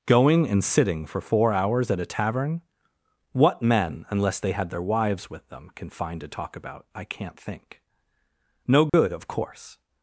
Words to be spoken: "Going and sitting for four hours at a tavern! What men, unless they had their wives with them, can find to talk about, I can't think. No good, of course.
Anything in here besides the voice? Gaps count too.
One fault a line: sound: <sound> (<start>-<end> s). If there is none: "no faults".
sound: dropout (8.9-8.9 s)